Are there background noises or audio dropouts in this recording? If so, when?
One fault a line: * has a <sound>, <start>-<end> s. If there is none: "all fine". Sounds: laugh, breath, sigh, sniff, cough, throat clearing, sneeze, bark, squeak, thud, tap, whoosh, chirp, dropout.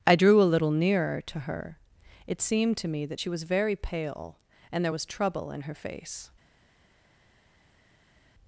all fine